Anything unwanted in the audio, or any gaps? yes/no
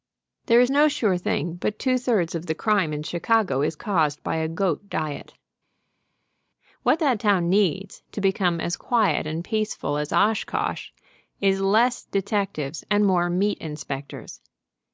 no